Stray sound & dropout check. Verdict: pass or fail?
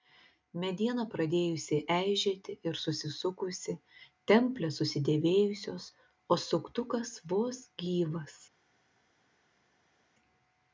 pass